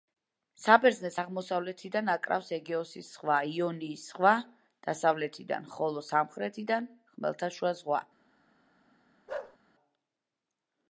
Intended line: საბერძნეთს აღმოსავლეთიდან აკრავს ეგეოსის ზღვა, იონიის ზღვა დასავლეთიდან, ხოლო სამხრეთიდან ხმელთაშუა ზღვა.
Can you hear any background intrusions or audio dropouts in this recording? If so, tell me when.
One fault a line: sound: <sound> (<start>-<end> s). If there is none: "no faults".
sound: bark (9.3-9.6 s)